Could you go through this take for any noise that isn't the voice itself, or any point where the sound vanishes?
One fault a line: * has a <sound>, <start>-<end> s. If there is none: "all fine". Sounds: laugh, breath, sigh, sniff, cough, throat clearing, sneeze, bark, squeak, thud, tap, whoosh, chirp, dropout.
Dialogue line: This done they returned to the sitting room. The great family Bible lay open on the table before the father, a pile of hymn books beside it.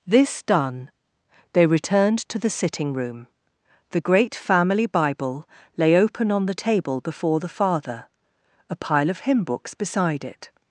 all fine